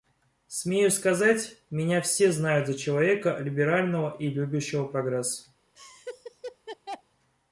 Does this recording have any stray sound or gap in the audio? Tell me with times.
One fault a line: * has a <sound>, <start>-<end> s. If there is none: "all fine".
* has a laugh, 5.8-7.0 s